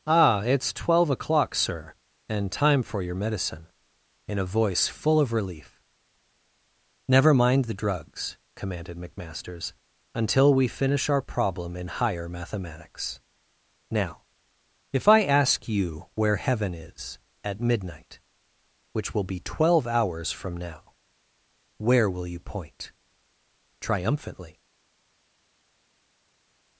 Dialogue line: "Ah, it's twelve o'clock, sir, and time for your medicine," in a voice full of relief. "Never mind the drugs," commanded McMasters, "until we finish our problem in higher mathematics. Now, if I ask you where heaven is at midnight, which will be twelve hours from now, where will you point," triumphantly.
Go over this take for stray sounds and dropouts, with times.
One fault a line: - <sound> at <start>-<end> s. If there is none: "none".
none